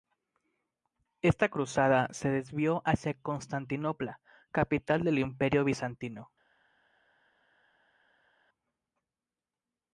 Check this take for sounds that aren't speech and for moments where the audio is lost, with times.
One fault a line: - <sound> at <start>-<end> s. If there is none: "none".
none